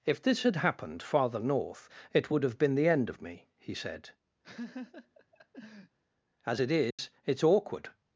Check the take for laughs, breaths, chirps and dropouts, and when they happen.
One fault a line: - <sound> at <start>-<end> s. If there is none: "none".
- laugh at 4.4-6.0 s
- dropout at 6.9-7.0 s